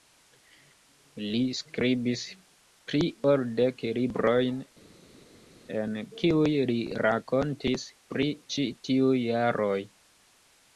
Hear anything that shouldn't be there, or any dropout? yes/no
no